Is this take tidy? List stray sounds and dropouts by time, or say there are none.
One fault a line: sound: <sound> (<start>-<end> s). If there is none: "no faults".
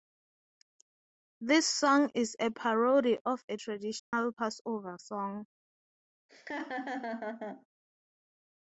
sound: dropout (4.0-4.1 s)
sound: laugh (6.3-7.7 s)